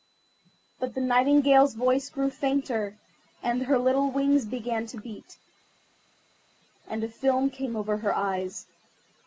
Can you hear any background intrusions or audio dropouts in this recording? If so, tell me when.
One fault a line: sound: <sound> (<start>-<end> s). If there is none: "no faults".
no faults